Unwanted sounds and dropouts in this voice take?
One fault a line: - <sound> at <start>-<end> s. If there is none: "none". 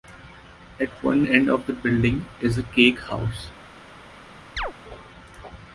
- chirp at 4.6-4.7 s